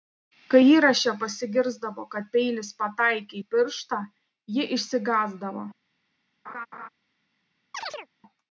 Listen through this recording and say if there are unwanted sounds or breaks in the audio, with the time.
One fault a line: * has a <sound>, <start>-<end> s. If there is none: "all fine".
* has a laugh, 6.4-6.9 s
* has a chirp, 7.7-8.1 s